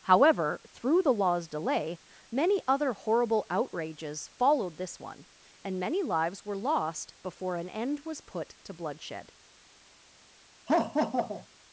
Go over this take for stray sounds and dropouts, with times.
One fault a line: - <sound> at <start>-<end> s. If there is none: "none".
- laugh at 10.7-11.5 s